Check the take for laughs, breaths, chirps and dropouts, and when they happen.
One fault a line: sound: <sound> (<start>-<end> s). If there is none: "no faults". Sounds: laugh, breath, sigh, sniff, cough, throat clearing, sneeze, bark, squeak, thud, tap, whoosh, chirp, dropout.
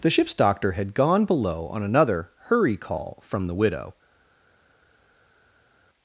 no faults